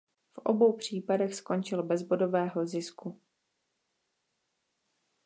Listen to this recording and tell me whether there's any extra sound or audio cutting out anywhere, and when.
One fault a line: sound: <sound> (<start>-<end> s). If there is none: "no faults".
no faults